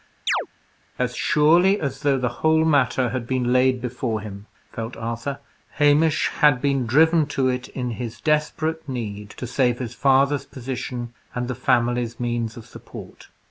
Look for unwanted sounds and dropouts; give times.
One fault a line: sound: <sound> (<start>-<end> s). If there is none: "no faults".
sound: chirp (0.3-0.5 s)